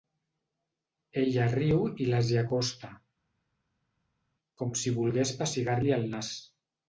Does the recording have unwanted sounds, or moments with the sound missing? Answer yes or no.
no